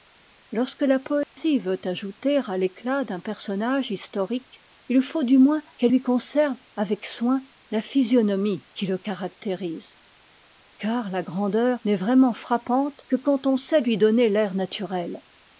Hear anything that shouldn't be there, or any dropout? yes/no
yes